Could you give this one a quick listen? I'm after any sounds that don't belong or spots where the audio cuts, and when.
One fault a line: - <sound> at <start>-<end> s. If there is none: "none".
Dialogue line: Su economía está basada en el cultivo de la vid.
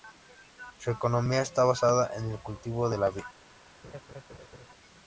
- laugh at 3.8-4.7 s